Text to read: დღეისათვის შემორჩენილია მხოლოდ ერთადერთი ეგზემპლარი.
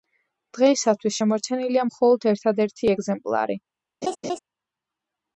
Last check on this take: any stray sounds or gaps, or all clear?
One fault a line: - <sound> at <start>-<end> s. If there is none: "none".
- laugh at 4.0-4.4 s